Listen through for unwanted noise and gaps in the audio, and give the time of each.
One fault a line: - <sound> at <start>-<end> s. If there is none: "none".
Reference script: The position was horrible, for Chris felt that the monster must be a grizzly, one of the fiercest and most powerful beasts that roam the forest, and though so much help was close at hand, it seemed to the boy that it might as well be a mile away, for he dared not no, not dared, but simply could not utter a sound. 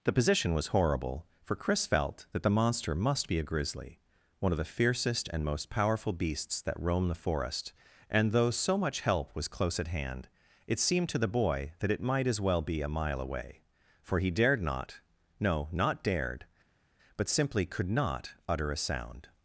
none